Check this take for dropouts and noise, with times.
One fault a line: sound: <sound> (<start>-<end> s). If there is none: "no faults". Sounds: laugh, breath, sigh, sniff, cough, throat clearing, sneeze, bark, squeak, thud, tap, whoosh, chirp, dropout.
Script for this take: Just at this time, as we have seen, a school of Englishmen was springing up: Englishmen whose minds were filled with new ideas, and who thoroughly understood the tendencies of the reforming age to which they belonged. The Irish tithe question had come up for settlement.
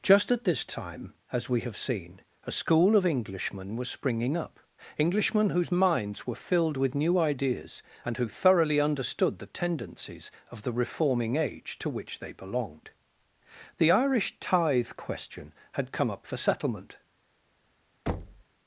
sound: thud (18.1-18.4 s)